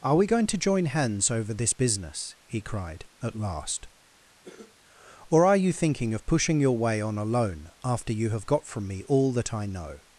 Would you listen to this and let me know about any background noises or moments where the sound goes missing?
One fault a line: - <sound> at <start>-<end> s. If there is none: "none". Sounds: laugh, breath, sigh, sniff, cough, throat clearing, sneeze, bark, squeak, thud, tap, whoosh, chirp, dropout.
- cough at 4.4-4.8 s